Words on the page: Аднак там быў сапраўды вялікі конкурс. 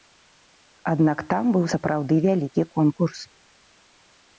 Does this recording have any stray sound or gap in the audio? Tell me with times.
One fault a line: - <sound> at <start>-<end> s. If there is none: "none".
none